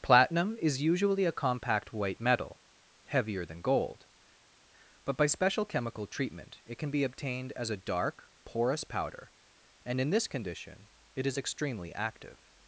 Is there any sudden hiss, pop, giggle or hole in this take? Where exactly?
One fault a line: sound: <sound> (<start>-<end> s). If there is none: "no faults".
no faults